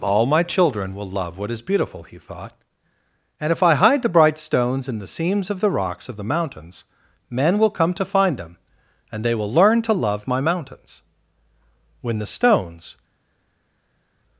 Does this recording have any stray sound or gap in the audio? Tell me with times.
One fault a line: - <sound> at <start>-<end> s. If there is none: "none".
none